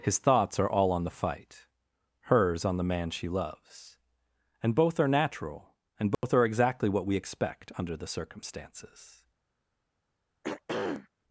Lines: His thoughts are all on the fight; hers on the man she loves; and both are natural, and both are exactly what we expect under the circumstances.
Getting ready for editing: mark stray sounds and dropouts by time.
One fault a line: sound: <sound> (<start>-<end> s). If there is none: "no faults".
sound: dropout (6.1-6.2 s)
sound: throat clearing (10.4-11.1 s)